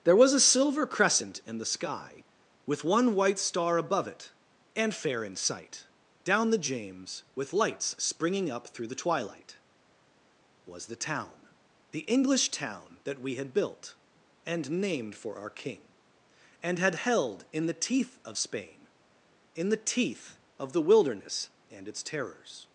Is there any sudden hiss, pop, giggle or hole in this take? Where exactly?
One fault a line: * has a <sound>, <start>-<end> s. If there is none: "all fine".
all fine